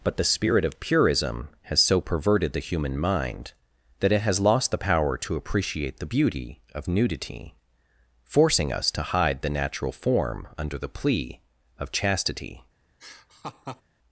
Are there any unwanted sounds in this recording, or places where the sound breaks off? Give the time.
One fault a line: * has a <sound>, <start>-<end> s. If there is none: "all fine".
* has a laugh, 13.0-13.8 s